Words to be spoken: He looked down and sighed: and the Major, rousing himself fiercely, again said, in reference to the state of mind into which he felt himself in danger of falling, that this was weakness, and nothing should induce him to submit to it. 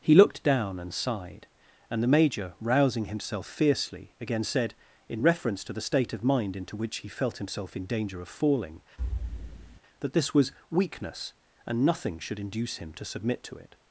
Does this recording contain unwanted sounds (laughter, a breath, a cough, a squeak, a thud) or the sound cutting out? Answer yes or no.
yes